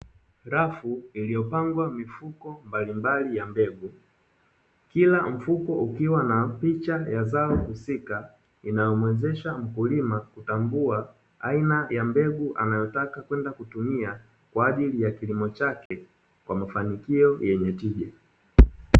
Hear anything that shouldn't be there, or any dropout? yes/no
yes